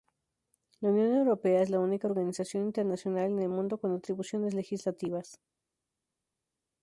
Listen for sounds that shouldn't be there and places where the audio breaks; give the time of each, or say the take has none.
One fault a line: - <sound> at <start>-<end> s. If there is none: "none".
none